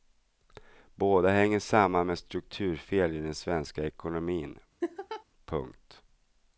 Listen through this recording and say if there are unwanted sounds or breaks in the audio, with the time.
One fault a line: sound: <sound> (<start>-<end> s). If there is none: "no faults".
sound: laugh (4.8-5.2 s)